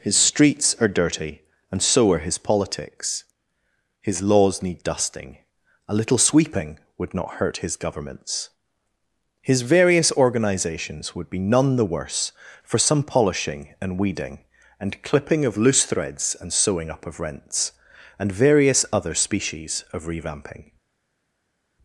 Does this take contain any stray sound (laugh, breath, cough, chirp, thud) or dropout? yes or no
no